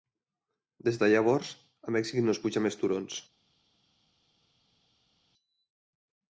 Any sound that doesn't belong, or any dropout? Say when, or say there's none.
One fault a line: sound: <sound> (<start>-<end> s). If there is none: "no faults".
no faults